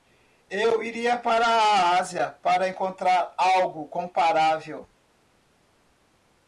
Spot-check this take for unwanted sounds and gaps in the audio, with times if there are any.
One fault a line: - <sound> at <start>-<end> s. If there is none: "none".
none